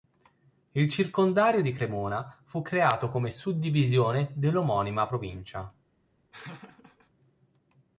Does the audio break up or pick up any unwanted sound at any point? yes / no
yes